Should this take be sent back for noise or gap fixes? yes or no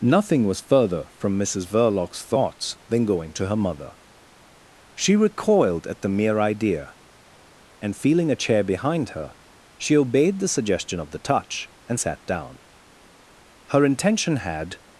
no